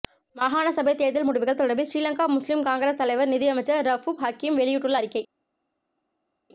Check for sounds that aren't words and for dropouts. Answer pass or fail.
pass